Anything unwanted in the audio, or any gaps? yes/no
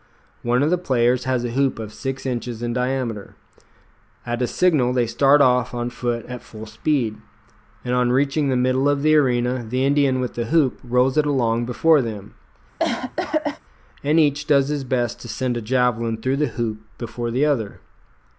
yes